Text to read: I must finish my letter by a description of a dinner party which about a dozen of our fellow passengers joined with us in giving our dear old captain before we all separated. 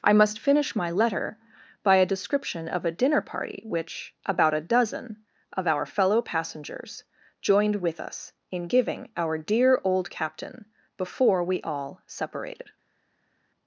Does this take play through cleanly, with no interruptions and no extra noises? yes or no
yes